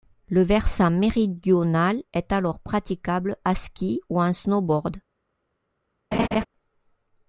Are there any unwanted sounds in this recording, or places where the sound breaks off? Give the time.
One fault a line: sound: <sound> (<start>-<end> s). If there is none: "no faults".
sound: laugh (6.1-6.5 s)